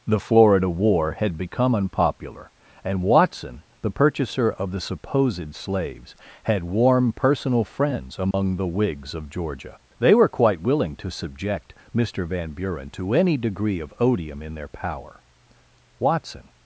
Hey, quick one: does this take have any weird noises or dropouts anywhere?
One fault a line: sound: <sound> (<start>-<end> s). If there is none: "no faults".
sound: dropout (8.3-8.3 s)